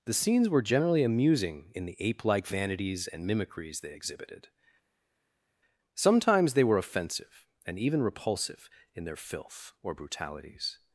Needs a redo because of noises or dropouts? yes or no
no